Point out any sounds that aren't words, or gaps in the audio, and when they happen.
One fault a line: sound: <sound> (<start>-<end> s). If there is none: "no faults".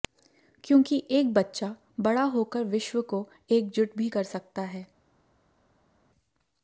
no faults